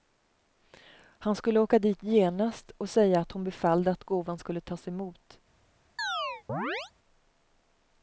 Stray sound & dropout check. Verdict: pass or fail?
fail